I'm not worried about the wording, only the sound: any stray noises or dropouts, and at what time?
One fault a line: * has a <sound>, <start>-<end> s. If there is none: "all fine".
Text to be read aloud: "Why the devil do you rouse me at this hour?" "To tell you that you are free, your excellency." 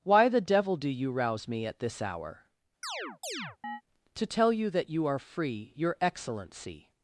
* has a chirp, 2.8-3.8 s